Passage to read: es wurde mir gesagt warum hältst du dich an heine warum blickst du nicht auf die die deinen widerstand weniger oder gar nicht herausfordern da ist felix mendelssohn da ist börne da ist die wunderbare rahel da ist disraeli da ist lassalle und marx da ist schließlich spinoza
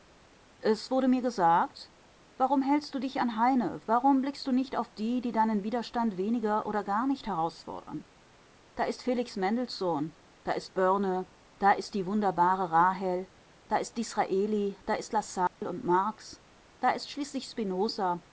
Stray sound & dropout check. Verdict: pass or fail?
fail